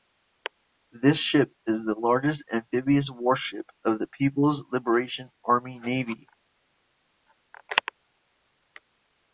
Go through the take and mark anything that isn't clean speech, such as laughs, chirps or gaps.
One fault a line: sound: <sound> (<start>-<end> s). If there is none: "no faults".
no faults